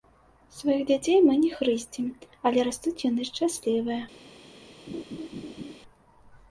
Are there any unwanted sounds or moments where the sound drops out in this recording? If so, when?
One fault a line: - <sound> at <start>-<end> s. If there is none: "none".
- laugh at 4.9-5.8 s